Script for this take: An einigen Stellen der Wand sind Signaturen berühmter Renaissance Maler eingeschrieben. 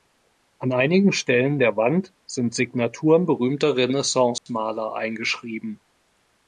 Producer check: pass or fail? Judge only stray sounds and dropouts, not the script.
fail